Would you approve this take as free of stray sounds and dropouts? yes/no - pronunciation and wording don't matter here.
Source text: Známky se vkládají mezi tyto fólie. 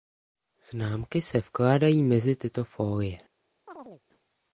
no